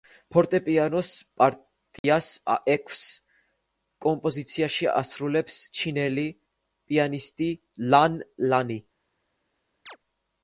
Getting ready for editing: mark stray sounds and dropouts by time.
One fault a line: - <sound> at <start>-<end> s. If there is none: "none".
- dropout at 2.0-2.0 s
- chirp at 9.9-10.0 s